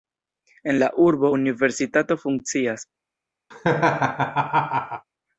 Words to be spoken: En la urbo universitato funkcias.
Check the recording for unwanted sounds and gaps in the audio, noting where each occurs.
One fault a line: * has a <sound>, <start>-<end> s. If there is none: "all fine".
* has a laugh, 3.5-5.1 s